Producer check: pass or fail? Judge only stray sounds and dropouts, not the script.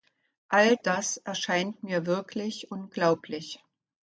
pass